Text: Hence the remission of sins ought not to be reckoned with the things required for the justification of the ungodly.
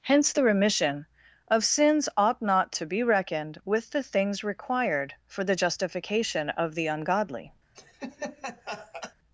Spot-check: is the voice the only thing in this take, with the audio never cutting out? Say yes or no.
no